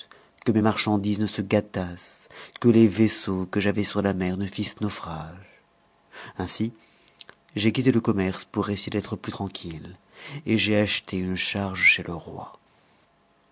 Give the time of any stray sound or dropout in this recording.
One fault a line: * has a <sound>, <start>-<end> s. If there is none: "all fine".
all fine